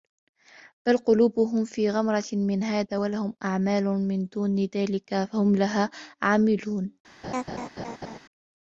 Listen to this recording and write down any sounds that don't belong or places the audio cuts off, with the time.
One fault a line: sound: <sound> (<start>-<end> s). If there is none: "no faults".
sound: laugh (7.2-8.2 s)